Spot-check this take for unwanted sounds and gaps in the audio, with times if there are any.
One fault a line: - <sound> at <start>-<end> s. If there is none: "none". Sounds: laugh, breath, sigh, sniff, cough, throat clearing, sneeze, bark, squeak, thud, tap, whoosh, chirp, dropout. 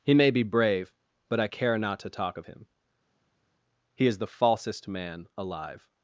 none